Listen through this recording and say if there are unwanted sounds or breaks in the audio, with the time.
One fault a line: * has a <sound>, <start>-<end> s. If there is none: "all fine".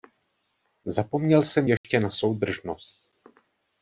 * has a dropout, 1.8-1.8 s